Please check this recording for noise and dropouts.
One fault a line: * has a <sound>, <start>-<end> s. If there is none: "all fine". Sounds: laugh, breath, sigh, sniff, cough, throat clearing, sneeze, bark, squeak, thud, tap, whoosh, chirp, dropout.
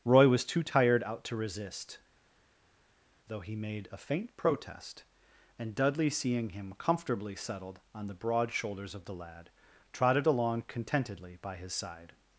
all fine